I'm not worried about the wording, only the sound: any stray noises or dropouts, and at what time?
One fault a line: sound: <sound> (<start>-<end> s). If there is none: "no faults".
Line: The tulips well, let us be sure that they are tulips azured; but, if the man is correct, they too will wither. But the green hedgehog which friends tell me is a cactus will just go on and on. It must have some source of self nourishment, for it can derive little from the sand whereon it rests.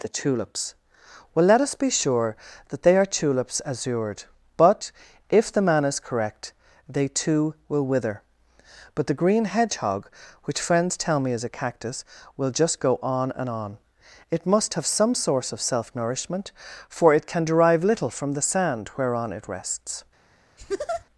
sound: laugh (20.6-21.1 s)